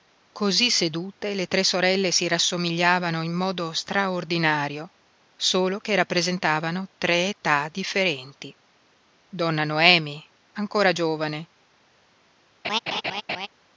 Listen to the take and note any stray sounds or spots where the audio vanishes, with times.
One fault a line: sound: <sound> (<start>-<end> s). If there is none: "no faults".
sound: laugh (12.6-13.5 s)